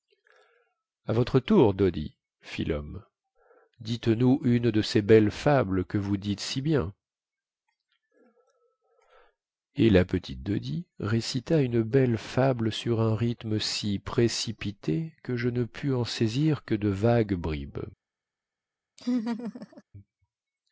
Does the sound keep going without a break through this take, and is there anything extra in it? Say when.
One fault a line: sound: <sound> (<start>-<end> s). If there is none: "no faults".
sound: laugh (19.0-19.8 s)